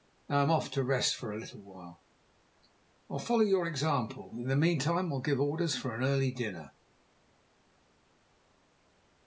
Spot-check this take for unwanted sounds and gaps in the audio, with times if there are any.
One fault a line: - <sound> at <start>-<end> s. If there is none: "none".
none